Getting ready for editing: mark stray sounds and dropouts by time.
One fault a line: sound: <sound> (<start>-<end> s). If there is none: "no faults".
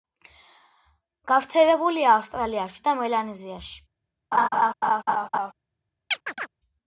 sound: laugh (4.3-5.5 s)
sound: chirp (6.1-6.5 s)